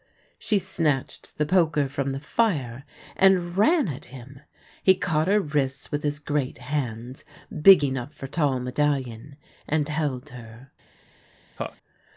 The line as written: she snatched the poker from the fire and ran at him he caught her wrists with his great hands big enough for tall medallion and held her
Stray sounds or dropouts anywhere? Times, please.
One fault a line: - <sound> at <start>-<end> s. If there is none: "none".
- laugh at 11.6-11.8 s